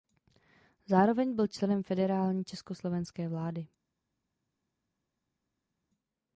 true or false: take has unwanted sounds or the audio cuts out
false